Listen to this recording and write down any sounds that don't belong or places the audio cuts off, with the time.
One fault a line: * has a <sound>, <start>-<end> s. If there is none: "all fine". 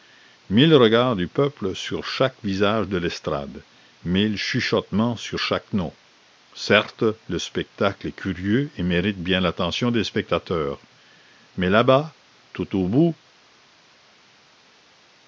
all fine